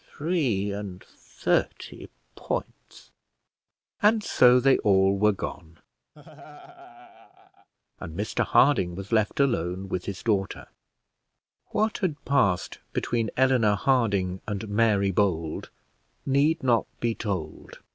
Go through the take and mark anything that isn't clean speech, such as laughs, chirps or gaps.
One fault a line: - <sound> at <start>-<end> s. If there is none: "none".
- laugh at 6.1-7.7 s